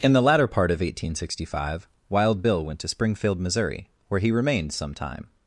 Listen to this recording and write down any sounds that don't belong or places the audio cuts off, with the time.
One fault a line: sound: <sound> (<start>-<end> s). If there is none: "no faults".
no faults